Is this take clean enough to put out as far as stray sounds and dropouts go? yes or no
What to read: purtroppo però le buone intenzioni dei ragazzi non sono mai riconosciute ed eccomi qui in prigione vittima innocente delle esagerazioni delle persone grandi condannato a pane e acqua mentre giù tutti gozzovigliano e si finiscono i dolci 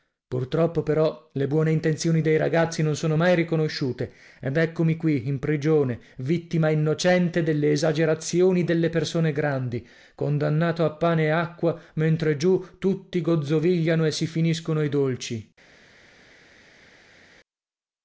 yes